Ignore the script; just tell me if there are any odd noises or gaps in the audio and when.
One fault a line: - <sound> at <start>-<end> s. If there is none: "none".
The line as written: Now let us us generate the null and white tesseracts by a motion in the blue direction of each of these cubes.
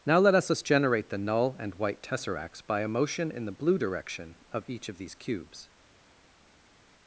none